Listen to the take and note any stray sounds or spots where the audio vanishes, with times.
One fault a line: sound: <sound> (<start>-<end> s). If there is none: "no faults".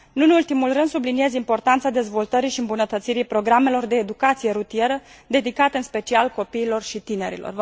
no faults